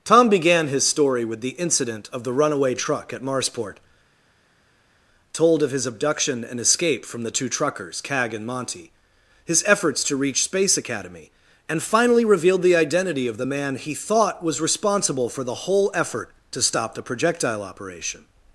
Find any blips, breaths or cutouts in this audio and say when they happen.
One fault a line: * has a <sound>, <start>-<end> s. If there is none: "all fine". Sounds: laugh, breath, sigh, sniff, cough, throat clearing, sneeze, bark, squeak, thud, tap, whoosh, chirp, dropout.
all fine